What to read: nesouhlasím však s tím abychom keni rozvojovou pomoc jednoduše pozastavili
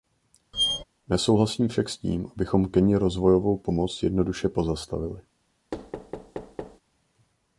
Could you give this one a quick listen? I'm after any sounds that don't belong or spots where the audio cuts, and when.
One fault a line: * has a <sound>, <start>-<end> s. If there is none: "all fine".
* has a squeak, 0.5-0.8 s
* has a thud, 5.7-6.8 s